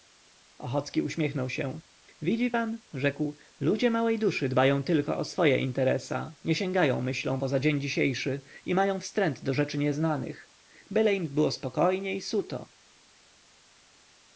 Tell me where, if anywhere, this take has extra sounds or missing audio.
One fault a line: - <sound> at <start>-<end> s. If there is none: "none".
none